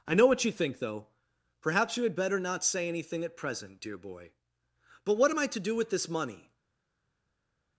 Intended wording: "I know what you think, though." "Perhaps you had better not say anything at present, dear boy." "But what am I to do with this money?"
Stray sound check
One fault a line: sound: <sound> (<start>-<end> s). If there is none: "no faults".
no faults